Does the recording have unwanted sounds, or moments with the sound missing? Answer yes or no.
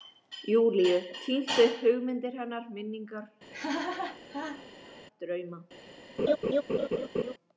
yes